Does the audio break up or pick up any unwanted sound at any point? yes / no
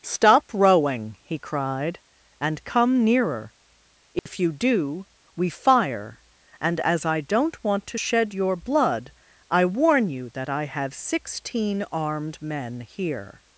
yes